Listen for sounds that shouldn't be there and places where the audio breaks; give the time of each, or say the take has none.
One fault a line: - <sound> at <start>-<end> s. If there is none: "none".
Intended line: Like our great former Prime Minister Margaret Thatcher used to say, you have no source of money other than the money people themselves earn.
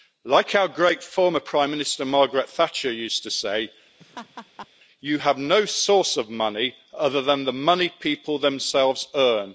- laugh at 4.0-4.7 s